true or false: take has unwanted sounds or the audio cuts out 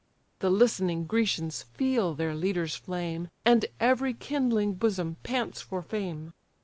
false